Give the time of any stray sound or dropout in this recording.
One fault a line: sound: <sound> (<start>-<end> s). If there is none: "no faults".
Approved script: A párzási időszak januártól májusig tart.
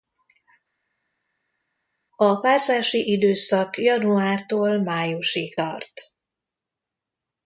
no faults